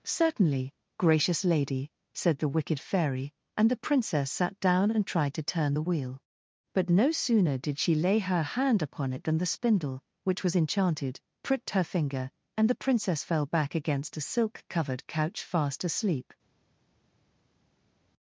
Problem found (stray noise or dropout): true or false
false